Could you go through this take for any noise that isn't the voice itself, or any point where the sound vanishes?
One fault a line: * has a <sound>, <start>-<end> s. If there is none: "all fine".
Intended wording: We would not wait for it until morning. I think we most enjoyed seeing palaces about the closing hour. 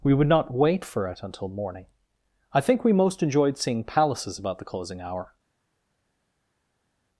all fine